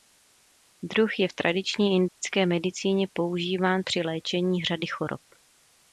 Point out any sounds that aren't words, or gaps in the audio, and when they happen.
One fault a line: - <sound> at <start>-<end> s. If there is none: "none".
- dropout at 2.1-2.2 s